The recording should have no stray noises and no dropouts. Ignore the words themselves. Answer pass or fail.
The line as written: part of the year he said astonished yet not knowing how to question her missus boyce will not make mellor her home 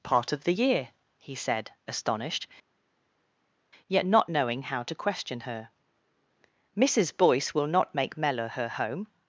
pass